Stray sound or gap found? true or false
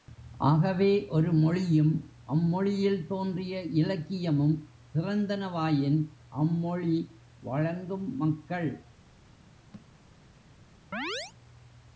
true